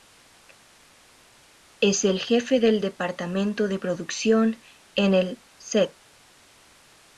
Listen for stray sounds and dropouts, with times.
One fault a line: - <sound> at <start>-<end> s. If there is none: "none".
none